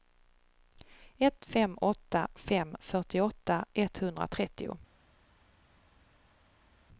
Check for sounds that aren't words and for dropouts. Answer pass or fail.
pass